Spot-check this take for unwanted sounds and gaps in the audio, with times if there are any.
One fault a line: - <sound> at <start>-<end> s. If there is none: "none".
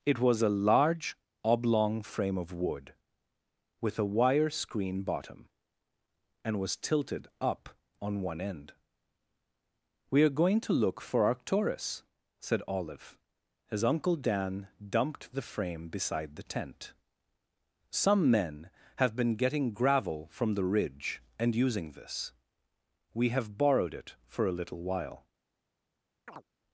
- chirp at 26.3-26.4 s